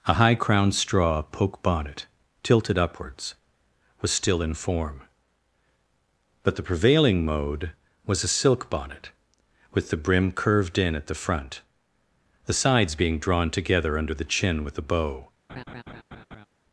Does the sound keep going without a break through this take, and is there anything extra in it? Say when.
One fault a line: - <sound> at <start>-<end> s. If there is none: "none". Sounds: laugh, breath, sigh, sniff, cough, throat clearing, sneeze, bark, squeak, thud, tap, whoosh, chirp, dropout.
- laugh at 15.5-16.5 s